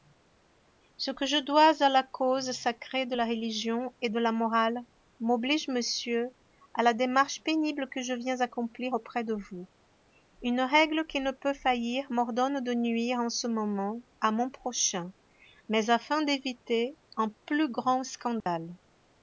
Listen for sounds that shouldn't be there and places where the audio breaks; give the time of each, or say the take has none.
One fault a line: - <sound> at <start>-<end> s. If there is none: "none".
- dropout at 18.4-18.5 s